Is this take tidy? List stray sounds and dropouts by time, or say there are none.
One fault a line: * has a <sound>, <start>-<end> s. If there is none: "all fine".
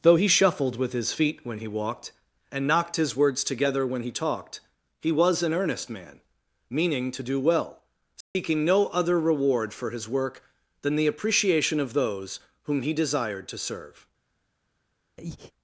* has a dropout, 8.2-8.4 s
* has a breath, 15.2-15.5 s